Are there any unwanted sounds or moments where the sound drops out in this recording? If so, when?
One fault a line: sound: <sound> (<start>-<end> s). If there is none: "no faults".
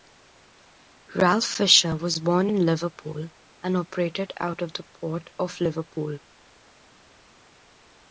no faults